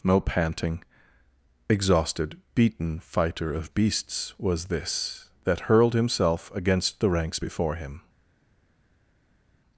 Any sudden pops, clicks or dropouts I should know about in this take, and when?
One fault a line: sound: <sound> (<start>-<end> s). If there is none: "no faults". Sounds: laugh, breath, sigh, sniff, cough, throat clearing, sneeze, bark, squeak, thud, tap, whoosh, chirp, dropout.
no faults